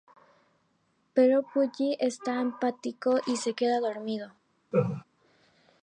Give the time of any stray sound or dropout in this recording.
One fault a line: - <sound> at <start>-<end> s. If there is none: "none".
- laugh at 4.7-5.0 s